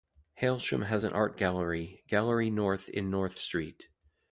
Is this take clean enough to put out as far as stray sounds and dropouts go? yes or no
yes